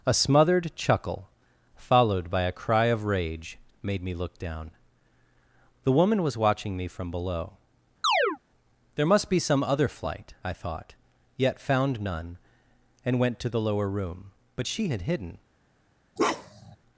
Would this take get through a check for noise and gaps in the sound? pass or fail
fail